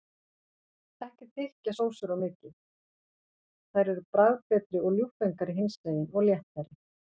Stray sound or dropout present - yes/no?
no